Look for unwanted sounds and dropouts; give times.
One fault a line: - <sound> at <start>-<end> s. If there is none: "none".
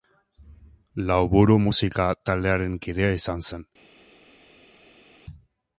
none